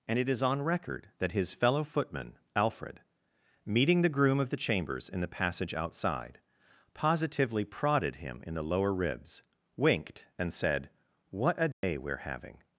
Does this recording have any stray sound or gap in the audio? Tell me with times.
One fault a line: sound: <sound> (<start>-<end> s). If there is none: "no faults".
sound: dropout (11.7-11.8 s)